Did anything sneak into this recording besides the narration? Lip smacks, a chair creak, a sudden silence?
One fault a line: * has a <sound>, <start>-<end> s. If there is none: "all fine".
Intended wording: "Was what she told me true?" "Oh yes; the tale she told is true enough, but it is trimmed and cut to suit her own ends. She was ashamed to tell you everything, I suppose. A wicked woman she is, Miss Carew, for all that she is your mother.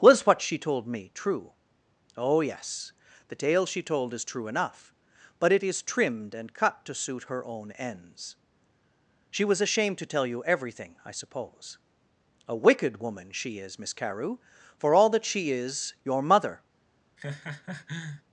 * has a laugh, 17.2-18.2 s